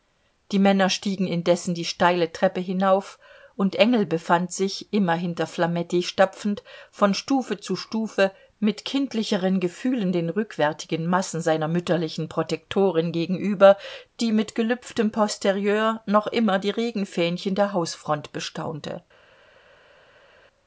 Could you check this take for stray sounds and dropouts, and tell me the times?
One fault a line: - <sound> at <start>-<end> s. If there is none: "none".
none